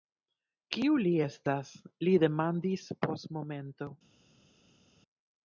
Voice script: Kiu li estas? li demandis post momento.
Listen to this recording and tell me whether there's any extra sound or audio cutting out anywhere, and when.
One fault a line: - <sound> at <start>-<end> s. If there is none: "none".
none